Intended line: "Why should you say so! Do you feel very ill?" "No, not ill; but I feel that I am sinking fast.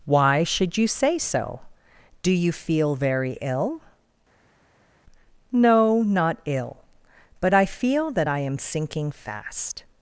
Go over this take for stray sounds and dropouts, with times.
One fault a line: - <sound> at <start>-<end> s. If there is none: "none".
none